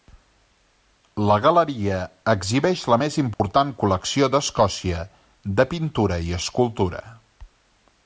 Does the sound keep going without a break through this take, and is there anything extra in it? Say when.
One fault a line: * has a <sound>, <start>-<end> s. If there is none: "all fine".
* has a dropout, 3.3-3.4 s